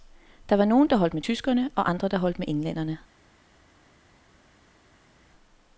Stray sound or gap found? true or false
false